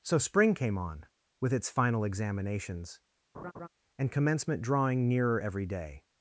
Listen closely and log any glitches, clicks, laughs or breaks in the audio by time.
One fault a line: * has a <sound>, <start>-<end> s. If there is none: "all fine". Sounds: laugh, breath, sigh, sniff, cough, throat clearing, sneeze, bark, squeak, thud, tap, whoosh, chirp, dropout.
* has a laugh, 3.3-3.7 s